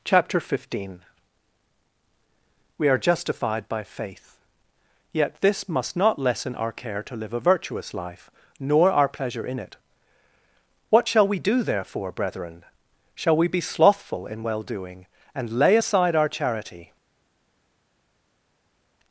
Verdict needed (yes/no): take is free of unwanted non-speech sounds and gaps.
yes